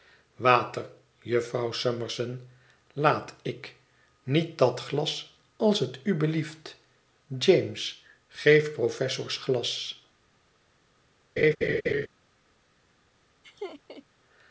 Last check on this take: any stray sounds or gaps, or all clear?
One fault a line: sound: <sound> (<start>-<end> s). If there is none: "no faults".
sound: laugh (11.4-12.1 s)
sound: laugh (13.4-14.0 s)